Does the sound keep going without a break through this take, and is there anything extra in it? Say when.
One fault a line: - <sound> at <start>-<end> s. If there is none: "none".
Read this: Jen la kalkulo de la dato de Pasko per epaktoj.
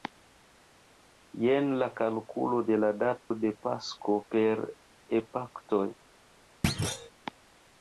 - dropout at 3.2-3.3 s
- thud at 6.6-7.1 s